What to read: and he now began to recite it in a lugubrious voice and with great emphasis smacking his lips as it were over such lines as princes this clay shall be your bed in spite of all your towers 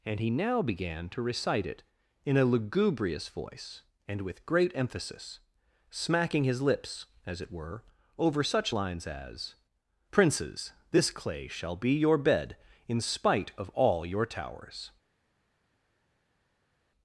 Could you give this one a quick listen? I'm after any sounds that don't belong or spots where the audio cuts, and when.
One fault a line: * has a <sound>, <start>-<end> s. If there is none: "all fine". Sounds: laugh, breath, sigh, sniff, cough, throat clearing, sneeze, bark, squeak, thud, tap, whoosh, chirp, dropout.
all fine